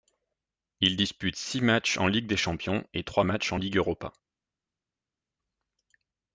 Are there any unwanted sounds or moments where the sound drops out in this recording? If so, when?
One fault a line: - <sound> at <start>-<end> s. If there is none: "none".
none